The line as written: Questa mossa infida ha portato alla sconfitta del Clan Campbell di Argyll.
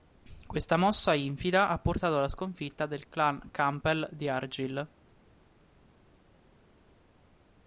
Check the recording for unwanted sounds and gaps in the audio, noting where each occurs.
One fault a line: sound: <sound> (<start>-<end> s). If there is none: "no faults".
no faults